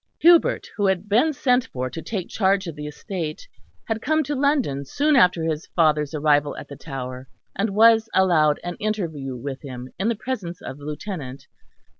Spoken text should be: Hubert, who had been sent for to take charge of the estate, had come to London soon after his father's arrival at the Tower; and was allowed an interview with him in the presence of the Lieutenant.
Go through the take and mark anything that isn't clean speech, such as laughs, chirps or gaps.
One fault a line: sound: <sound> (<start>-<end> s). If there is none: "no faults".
no faults